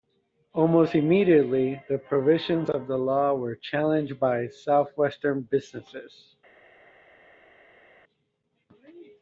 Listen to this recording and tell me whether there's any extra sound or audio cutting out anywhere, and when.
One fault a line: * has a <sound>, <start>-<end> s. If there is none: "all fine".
all fine